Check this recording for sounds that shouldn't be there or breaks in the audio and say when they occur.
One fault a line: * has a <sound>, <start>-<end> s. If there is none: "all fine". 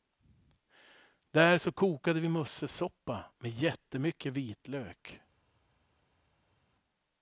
all fine